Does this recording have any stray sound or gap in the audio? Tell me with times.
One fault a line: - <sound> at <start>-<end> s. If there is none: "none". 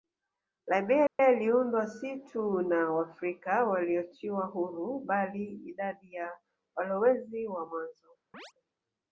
- dropout at 1.1-1.2 s
- chirp at 8.3-8.5 s